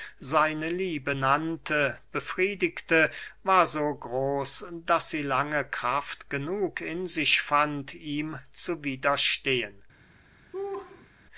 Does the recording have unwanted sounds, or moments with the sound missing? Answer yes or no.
yes